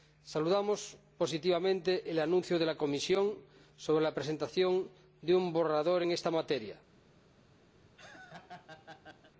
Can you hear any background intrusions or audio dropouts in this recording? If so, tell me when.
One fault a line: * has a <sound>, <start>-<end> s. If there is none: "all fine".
* has a laugh, 7.8-9.3 s